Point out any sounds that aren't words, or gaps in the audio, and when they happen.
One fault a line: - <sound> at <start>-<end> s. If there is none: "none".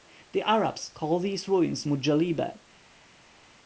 none